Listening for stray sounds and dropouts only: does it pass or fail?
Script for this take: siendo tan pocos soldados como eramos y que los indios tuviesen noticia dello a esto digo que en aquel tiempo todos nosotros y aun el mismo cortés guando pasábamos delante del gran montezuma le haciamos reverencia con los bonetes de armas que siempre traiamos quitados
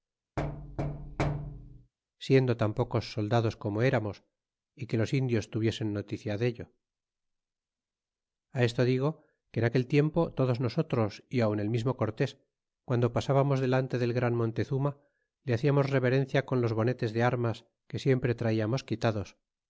fail